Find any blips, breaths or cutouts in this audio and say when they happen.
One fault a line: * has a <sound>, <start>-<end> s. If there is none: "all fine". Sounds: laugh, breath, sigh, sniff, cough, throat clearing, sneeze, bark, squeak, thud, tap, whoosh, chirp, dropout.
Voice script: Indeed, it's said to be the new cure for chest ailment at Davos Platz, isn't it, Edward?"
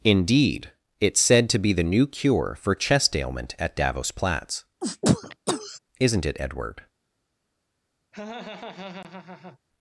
* has a sneeze, 4.8-5.8 s
* has a laugh, 8.1-9.6 s